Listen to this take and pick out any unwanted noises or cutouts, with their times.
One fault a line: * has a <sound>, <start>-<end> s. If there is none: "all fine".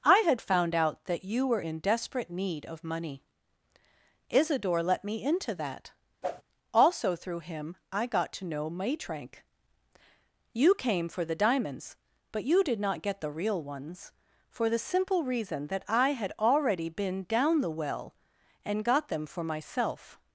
* has a whoosh, 6.2-6.4 s